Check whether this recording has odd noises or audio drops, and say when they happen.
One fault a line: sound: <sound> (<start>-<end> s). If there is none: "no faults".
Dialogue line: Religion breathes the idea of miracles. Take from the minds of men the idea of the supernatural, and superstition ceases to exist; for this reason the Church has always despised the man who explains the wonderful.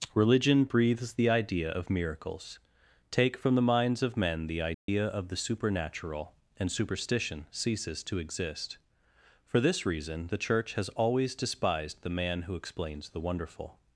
sound: dropout (4.7-4.9 s)